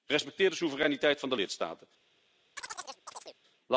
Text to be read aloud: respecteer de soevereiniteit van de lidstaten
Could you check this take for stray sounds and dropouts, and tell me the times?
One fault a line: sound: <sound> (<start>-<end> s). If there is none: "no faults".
sound: chirp (2.6-3.4 s)